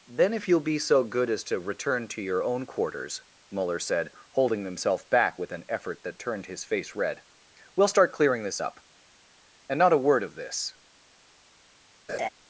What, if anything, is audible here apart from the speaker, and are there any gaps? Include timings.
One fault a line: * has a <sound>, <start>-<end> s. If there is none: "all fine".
* has a laugh, 12.1-12.3 s